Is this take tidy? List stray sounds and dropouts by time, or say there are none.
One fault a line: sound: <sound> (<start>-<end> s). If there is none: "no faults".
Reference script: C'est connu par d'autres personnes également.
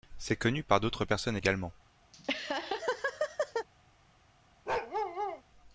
sound: laugh (2.1-3.7 s)
sound: bark (4.7-5.4 s)